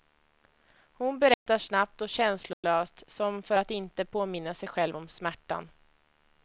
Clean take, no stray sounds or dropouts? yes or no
no